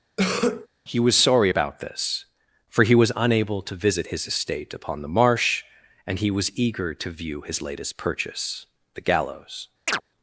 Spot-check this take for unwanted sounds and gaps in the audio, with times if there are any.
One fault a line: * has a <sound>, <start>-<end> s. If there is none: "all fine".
* has a cough, 0.2-0.7 s
* has a chirp, 9.9-10.0 s